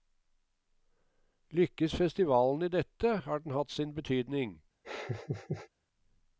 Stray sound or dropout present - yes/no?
yes